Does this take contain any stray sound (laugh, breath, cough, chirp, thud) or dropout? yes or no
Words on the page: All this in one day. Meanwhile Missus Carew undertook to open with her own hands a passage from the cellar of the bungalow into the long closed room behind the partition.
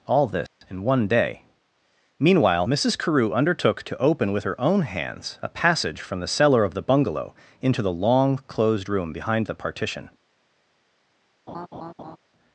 yes